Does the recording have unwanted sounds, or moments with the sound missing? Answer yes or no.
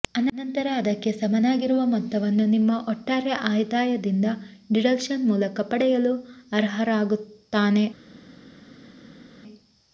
no